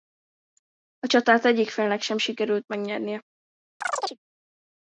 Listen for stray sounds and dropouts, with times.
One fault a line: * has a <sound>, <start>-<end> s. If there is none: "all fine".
* has a chirp, 3.8-4.2 s